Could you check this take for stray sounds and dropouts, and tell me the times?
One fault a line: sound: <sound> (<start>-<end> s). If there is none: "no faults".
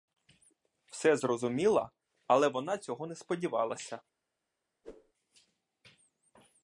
sound: whoosh (4.8-5.1 s)